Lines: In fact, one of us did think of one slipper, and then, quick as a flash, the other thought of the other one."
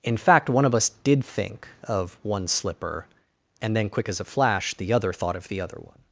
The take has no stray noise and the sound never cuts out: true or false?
true